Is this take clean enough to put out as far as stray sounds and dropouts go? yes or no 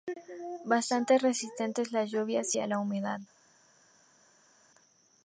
yes